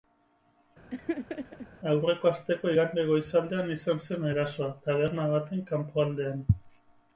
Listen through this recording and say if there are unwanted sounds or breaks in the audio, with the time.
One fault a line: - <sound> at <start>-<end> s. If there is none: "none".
- laugh at 0.9-1.7 s